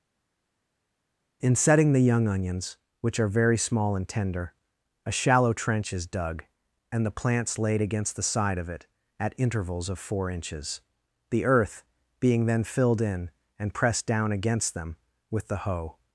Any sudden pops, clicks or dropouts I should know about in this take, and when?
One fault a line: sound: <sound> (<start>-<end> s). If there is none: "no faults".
no faults